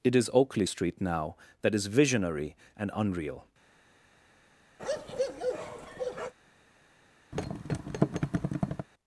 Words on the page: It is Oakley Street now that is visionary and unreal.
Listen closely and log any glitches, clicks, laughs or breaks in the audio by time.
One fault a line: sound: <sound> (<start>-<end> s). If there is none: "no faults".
sound: bark (4.8-6.3 s)
sound: thud (7.3-8.9 s)